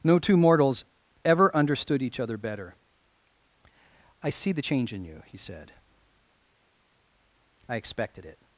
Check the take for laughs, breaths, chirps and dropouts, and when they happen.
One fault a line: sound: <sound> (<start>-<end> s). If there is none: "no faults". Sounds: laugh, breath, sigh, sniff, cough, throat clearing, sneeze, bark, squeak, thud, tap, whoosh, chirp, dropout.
no faults